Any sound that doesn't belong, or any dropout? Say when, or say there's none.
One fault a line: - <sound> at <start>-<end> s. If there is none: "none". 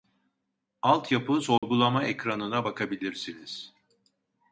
- dropout at 1.6-1.6 s